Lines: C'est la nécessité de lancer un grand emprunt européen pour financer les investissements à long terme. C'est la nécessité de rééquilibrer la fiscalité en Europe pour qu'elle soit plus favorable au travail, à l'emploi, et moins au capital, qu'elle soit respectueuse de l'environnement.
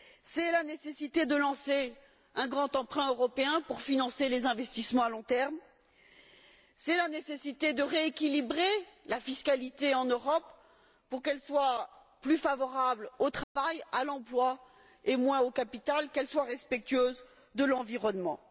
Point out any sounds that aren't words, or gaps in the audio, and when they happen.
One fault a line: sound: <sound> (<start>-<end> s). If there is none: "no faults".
sound: dropout (13.4-13.6 s)